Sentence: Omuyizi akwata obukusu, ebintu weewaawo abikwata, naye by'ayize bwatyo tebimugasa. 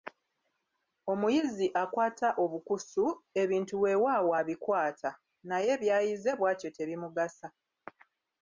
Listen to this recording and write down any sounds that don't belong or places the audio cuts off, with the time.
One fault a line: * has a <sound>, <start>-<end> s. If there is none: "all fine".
all fine